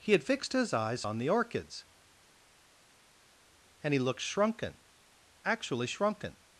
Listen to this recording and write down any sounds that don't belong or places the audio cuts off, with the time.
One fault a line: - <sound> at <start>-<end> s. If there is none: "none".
none